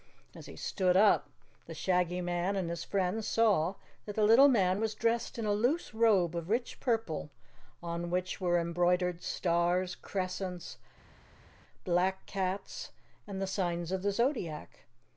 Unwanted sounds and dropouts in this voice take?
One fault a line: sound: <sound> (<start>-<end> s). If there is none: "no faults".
no faults